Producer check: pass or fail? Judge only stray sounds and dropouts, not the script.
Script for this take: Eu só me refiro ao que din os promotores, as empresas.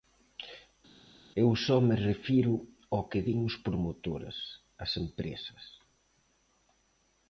pass